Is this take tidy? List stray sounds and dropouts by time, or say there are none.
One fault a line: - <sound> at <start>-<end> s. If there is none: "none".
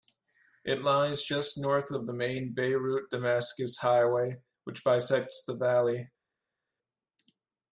none